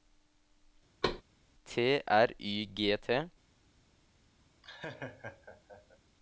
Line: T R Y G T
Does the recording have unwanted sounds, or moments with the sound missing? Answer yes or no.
yes